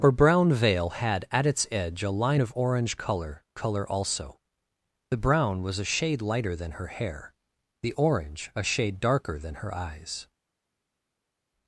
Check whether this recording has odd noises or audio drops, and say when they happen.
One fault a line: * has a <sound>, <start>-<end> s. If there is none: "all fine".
all fine